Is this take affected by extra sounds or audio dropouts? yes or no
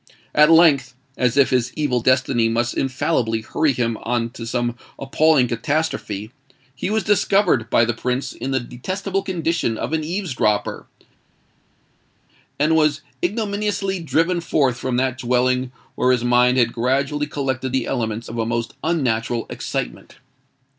no